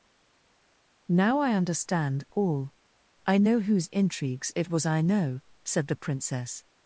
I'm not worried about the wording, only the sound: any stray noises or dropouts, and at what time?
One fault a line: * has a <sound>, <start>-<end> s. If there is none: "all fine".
all fine